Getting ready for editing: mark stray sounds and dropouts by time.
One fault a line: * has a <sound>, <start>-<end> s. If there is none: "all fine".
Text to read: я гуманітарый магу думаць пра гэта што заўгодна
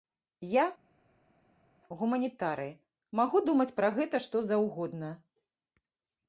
all fine